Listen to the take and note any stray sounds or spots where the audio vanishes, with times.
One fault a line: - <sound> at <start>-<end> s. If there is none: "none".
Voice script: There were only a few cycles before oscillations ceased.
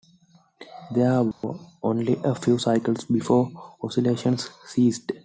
- dropout at 1.3-1.4 s